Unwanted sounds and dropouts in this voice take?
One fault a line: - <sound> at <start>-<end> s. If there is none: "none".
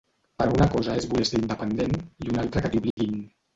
- dropout at 2.9-3.0 s